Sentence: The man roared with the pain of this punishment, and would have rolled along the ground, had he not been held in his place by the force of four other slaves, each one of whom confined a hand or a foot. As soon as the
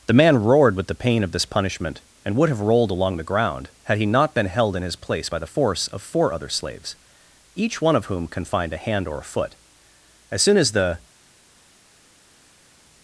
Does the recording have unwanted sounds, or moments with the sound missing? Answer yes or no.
no